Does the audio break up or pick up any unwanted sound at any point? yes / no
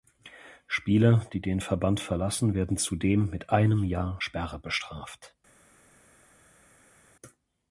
no